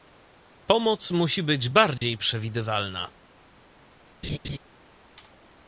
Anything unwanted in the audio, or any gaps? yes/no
yes